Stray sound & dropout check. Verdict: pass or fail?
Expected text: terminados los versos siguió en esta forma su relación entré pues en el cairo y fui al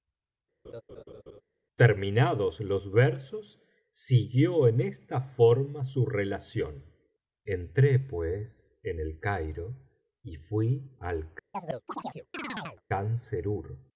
fail